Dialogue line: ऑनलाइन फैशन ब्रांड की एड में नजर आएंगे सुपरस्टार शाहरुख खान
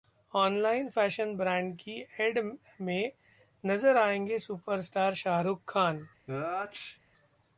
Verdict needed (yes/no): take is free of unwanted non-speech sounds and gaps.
no